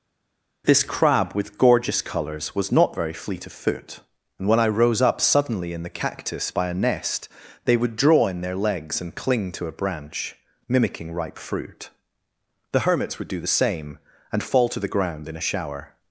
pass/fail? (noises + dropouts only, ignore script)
pass